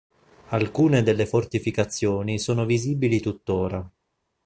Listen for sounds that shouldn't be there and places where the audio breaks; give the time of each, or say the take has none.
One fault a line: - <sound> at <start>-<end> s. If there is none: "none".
none